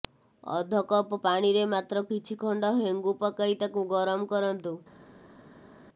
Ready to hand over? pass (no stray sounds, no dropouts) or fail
pass